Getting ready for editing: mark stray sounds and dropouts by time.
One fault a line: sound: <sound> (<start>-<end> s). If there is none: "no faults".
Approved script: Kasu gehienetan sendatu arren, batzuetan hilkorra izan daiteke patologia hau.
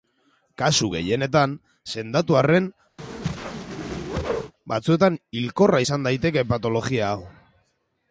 sound: whoosh (3.0-4.5 s)